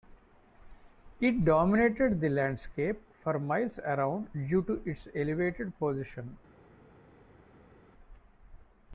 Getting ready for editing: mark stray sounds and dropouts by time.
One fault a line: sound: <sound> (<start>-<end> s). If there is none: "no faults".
no faults